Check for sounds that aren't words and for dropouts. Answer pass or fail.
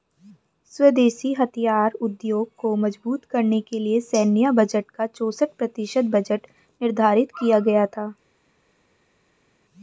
pass